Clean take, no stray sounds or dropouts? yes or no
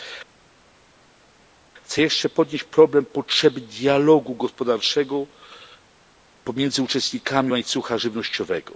yes